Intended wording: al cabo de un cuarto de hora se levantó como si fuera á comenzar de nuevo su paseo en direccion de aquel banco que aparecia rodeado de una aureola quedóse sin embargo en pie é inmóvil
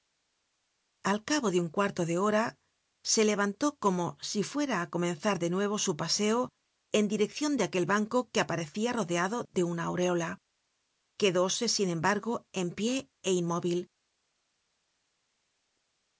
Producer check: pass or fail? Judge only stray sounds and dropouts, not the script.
pass